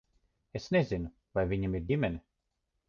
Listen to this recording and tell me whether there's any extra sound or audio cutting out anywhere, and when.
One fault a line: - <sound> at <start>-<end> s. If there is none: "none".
none